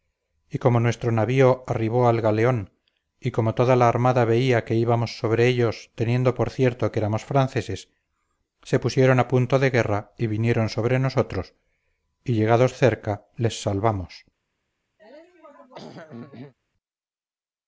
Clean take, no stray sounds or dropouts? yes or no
no